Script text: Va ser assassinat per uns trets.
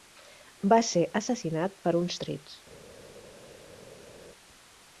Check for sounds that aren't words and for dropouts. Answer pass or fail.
pass